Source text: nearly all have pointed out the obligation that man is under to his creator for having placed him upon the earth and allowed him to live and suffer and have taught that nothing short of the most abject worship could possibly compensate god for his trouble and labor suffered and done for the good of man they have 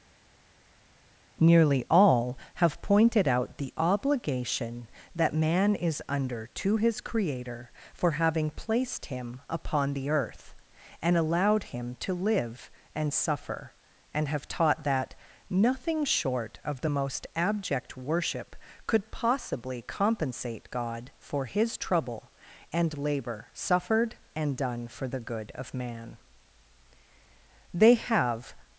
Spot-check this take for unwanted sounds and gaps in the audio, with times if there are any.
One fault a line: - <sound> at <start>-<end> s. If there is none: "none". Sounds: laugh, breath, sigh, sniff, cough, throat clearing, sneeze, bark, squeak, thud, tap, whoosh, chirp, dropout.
none